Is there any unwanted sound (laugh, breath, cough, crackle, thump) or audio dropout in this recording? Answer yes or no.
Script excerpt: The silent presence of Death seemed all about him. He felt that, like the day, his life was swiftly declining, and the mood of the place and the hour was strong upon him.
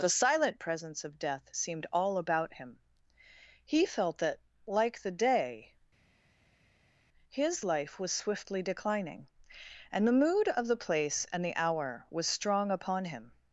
no